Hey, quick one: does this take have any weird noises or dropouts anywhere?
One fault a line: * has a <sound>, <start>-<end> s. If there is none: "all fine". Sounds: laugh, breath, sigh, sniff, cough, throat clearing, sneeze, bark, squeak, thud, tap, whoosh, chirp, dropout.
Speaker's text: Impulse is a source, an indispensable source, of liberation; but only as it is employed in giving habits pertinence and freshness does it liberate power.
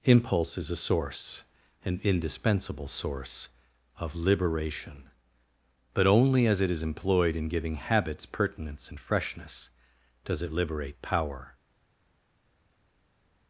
all fine